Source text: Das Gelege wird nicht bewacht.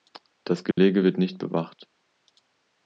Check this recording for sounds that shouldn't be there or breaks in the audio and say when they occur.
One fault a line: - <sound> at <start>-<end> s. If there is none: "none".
- dropout at 0.7-0.8 s